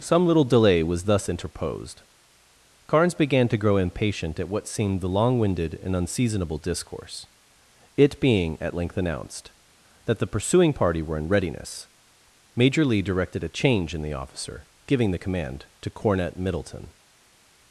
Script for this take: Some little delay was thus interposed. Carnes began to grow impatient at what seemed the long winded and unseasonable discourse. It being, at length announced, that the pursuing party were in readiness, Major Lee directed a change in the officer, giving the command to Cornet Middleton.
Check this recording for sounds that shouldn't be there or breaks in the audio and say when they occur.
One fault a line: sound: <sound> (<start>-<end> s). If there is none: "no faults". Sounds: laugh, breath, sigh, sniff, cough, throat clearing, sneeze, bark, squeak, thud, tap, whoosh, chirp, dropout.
no faults